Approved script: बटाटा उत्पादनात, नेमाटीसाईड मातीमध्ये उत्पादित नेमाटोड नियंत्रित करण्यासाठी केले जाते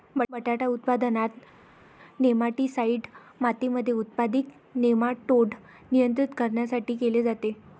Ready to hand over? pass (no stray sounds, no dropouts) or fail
pass